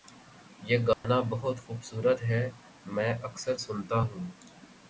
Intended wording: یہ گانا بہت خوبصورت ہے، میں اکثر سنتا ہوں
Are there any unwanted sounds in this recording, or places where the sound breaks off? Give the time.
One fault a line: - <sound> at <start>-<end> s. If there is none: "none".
- dropout at 0.9-1.0 s